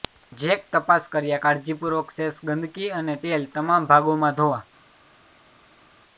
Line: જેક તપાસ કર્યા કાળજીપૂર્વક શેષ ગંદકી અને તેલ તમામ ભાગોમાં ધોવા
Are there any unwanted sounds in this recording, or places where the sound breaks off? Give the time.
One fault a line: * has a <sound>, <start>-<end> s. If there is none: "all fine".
all fine